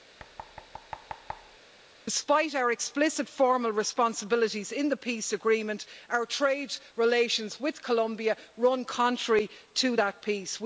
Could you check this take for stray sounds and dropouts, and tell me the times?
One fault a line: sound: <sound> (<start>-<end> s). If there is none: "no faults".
sound: thud (0.2-1.6 s)